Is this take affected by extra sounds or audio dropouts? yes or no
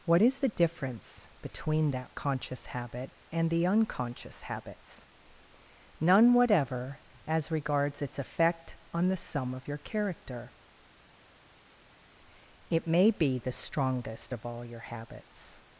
no